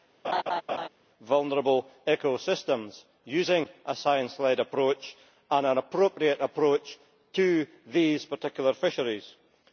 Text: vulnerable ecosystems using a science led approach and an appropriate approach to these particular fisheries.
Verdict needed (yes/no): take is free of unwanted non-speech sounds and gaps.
no